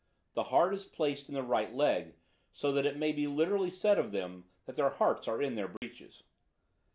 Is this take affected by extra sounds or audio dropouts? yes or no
yes